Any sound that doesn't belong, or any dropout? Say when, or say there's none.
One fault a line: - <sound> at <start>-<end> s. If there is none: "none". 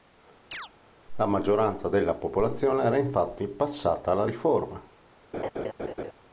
- chirp at 0.5-0.7 s
- laugh at 5.3-6.1 s